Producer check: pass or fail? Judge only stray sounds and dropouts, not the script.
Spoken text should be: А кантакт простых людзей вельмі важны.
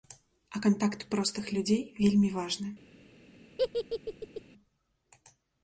fail